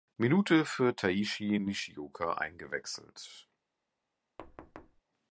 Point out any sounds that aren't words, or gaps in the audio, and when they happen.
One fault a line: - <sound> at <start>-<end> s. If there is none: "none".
- thud at 4.4-5.0 s